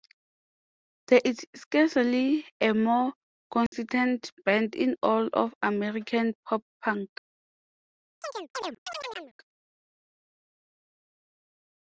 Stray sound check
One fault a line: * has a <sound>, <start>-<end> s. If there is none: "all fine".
* has a dropout, 3.7-3.7 s
* has a chirp, 8.2-9.3 s